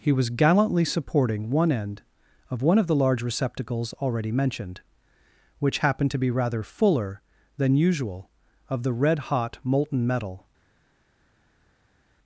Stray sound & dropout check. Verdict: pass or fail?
pass